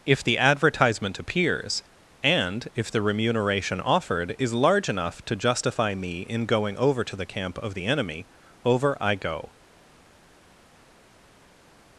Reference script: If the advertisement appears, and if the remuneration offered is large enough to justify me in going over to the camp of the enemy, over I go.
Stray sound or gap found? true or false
false